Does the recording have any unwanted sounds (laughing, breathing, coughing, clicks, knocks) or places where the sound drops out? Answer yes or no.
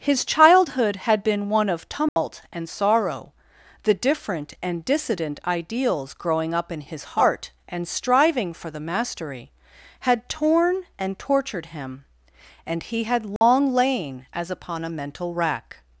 yes